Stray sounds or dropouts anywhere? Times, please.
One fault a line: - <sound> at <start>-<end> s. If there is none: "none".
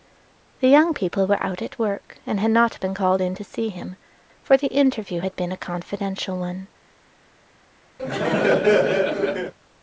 - laugh at 8.0-9.5 s